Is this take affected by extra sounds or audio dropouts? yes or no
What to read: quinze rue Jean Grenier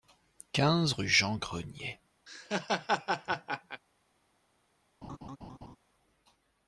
yes